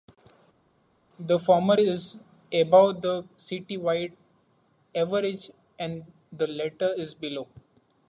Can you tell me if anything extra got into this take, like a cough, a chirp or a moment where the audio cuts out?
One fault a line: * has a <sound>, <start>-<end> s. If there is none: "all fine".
all fine